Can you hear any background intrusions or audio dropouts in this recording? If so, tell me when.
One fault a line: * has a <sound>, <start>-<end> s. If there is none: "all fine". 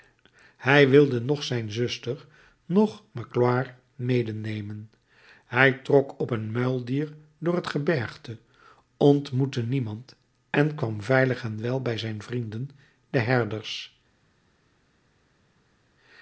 all fine